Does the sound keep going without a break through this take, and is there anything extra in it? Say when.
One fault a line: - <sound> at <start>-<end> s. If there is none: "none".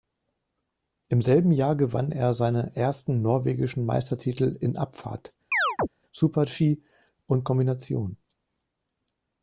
- chirp at 5.5-5.9 s